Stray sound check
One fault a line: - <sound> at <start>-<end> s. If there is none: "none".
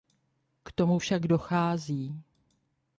none